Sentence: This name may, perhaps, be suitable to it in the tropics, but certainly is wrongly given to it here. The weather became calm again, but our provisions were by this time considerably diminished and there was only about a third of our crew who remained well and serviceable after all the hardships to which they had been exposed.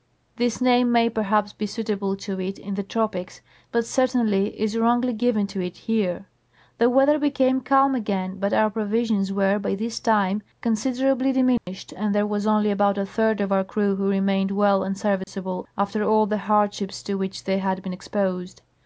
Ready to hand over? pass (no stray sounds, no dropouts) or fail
fail